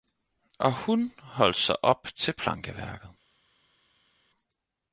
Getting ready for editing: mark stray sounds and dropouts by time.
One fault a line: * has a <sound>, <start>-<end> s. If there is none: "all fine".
all fine